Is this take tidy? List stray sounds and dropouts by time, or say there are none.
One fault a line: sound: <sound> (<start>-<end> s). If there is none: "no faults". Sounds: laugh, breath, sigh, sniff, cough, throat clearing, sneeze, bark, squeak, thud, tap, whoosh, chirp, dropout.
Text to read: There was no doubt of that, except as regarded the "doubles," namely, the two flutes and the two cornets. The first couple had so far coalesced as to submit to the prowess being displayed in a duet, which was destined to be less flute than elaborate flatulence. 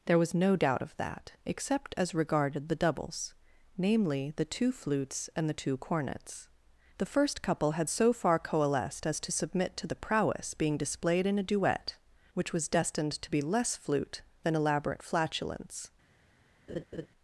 sound: laugh (16.7-17.1 s)